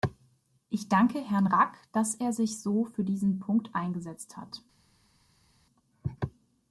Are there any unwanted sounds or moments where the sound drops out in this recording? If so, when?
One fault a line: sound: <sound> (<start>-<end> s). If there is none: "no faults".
no faults